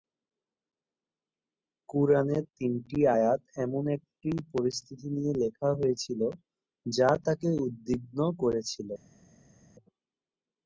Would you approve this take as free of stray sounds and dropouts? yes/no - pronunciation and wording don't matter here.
yes